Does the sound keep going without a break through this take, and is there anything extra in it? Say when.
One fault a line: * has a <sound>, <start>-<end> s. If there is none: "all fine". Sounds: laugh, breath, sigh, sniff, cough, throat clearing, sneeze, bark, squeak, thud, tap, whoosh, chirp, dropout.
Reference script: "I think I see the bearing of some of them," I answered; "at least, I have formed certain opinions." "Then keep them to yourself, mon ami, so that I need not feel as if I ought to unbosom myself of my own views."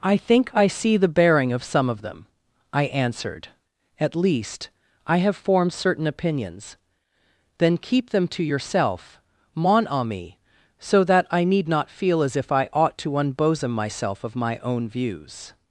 all fine